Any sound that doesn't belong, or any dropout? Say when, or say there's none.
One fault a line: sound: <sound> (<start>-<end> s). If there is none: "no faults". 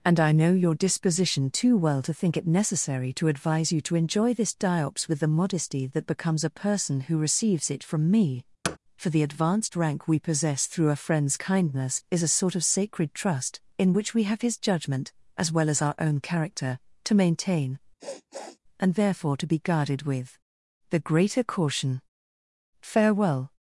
sound: thud (8.6-8.8 s)
sound: sniff (18.0-18.6 s)